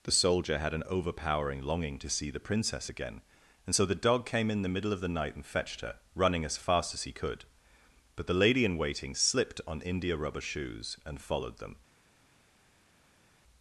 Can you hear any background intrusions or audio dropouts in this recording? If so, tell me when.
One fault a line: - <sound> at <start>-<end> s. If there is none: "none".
none